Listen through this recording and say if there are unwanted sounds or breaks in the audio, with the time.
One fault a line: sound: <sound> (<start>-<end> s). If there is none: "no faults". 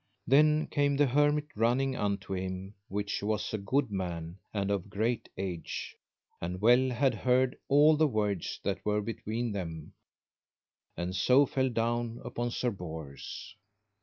no faults